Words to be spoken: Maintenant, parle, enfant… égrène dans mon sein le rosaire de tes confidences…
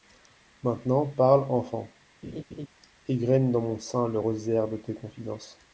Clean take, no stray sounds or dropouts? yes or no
no